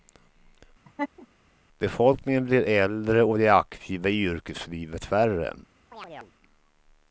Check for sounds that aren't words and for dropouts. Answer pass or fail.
fail